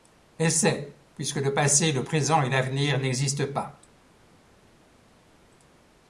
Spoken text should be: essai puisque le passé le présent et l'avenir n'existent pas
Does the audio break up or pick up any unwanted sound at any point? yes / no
no